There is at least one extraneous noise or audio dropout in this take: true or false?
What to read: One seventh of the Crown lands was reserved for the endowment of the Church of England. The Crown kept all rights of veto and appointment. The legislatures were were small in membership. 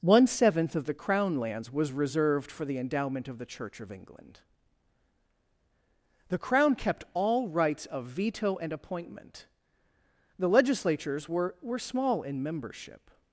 false